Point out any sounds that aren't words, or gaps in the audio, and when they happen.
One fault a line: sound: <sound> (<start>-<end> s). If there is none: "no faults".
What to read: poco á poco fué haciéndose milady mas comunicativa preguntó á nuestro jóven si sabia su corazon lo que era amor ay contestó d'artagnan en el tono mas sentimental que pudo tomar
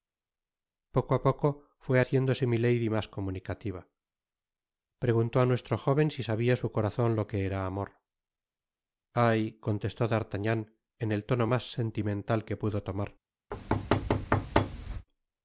sound: thud (13.5-15.1 s)